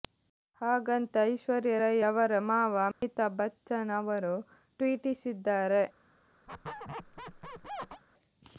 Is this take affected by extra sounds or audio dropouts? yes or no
yes